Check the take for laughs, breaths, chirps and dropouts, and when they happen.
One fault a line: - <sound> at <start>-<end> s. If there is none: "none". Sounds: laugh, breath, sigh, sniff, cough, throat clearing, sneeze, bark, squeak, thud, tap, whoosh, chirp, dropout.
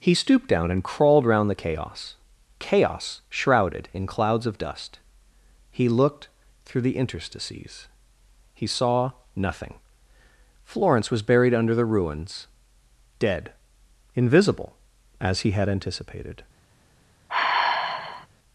- sigh at 17.3-18.3 s